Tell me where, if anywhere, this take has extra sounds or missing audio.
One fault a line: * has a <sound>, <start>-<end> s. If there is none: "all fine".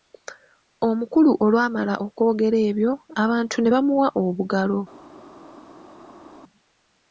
all fine